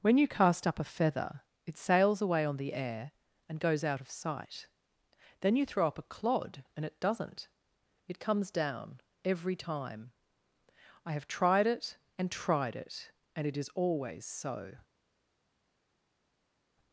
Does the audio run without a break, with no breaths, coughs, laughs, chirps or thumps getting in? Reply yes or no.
yes